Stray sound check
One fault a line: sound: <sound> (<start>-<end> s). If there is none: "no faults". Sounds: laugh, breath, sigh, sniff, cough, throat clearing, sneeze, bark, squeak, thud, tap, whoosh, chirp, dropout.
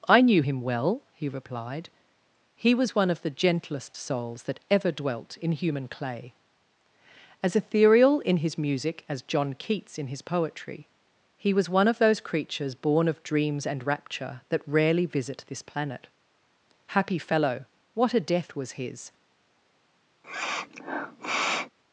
sound: sniff (20.2-21.7 s)